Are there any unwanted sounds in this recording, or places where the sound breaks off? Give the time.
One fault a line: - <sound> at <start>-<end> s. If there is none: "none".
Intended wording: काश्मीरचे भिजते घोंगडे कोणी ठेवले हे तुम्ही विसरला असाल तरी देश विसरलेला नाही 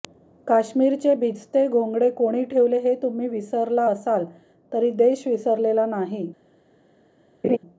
- laugh at 7.4-7.6 s